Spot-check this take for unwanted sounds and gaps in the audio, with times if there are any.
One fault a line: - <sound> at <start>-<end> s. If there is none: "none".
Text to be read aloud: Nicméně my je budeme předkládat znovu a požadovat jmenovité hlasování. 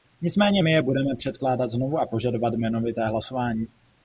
none